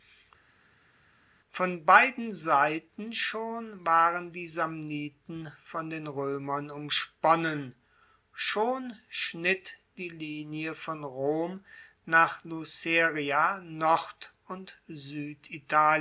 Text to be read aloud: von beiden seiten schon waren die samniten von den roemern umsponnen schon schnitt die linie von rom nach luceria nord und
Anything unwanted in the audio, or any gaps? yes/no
no